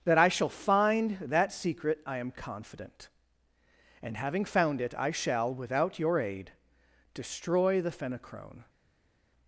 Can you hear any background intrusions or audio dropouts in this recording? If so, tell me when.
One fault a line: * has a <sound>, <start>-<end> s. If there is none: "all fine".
all fine